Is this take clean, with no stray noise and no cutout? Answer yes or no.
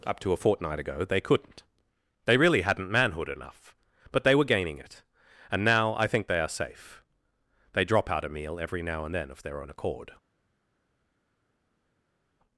yes